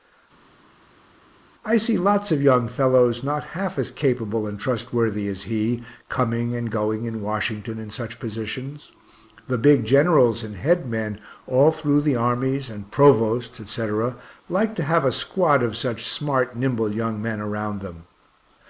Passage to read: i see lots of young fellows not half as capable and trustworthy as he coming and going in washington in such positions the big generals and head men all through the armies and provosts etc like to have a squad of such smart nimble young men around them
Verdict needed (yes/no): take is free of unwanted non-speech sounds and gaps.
yes